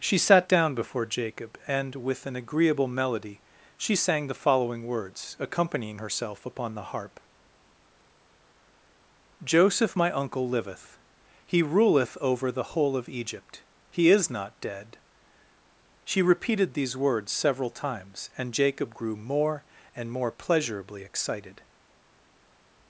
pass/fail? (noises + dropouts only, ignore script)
pass